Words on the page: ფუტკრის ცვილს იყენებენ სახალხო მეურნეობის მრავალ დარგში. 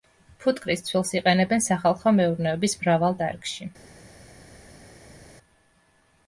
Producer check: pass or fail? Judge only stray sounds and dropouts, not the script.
pass